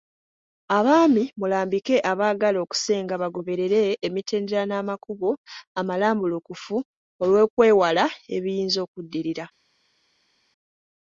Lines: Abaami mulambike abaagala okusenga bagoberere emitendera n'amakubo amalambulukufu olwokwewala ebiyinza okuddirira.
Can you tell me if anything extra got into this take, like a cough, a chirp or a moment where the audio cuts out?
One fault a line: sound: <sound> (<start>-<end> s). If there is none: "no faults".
no faults